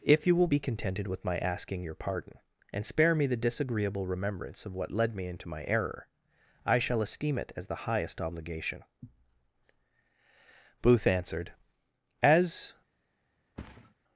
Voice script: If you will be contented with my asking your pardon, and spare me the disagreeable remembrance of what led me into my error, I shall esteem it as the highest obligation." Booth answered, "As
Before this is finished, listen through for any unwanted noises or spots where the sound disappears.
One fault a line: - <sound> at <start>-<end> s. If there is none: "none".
- thud at 13.6-13.9 s